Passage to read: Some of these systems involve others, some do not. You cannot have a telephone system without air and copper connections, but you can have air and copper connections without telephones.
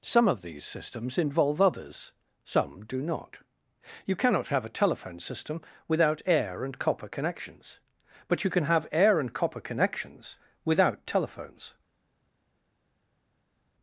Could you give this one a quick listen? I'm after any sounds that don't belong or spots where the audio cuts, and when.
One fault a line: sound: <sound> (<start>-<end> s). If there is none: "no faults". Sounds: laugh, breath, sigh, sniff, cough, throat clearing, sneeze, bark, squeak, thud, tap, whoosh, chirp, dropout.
no faults